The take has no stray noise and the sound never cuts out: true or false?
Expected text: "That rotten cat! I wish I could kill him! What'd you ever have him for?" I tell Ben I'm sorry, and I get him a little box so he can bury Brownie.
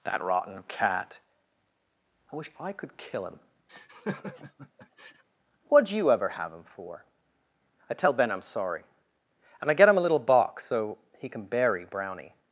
false